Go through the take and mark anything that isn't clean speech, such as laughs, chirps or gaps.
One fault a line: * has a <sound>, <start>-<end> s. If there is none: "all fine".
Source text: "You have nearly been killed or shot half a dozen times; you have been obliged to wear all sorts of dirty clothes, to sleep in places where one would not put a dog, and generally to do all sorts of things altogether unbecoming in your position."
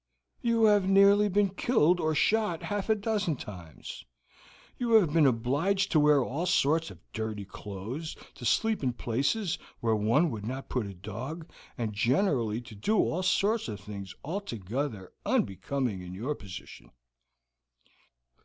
all fine